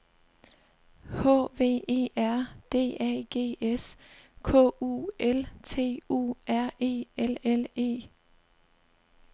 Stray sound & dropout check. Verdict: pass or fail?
pass